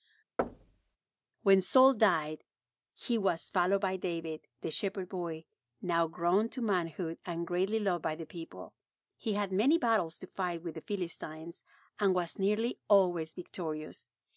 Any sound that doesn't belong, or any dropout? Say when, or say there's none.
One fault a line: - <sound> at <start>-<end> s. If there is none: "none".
- thud at 0.4-1.0 s